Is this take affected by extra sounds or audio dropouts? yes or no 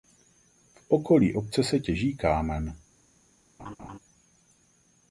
yes